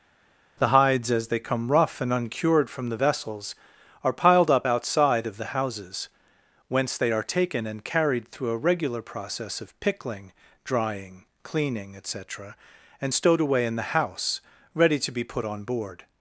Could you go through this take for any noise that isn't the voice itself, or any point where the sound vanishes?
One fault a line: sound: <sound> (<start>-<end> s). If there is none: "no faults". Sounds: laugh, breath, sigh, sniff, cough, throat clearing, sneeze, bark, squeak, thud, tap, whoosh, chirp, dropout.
no faults